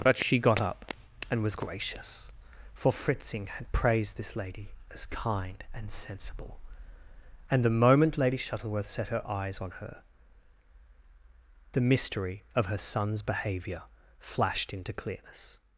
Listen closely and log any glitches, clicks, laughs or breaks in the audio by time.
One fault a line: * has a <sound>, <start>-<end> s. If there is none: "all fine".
all fine